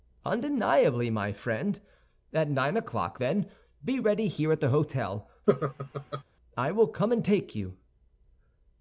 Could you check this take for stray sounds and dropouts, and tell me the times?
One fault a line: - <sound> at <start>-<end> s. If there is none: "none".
- laugh at 5.5-6.2 s